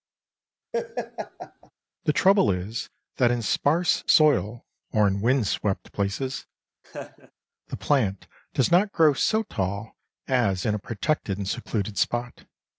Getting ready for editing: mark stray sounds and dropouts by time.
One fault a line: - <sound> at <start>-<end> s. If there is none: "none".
- laugh at 0.7-1.7 s
- laugh at 6.8-7.3 s